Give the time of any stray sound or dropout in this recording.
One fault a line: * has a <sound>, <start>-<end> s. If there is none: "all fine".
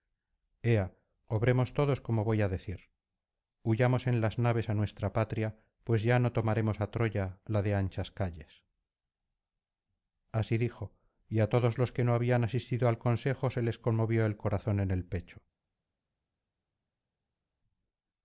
all fine